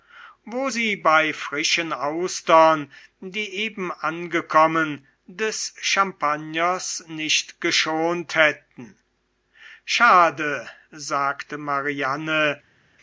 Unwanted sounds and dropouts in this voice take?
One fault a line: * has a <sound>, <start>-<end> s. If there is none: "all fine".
all fine